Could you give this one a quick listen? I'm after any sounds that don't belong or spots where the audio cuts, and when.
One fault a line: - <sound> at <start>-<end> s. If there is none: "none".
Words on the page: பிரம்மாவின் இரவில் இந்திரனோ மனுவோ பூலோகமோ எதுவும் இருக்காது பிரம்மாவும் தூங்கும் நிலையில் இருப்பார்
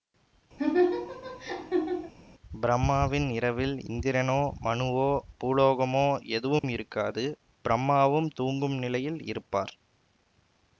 - laugh at 0.6-2.1 s
- dropout at 6.6-6.6 s